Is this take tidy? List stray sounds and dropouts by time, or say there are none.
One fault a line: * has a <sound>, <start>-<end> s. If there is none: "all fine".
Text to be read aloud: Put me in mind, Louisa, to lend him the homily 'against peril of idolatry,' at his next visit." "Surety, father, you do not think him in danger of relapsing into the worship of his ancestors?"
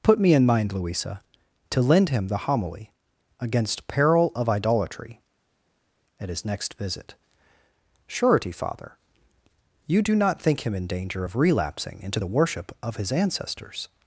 all fine